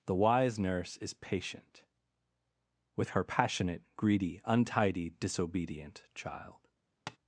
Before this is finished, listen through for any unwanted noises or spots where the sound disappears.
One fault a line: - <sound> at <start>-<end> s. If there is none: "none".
- tap at 7.1-7.2 s